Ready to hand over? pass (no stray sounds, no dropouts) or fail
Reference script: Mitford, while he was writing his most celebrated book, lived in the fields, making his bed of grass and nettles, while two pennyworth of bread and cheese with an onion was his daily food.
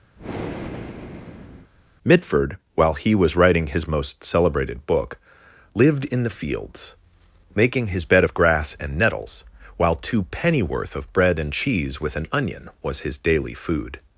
fail